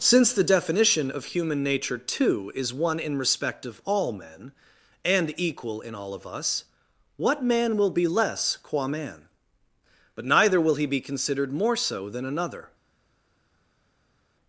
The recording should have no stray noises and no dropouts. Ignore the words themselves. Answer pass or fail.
pass